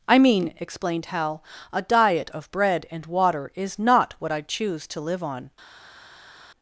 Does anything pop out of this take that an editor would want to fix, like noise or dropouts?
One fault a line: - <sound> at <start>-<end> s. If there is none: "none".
none